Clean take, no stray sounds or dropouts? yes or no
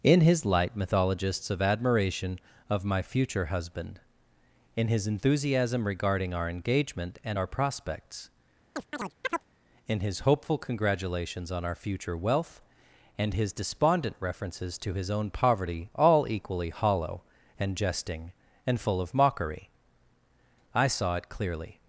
no